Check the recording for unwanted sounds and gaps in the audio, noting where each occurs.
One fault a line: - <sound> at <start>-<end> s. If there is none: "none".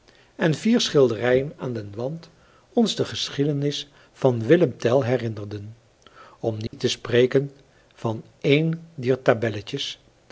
- dropout at 6.7-6.7 s